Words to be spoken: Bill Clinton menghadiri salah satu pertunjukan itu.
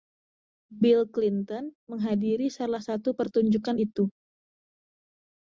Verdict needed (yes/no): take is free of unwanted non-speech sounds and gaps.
yes